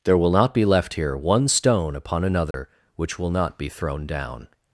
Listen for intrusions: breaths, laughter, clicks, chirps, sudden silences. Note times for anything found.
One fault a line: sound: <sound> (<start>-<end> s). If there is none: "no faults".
sound: dropout (2.5-2.5 s)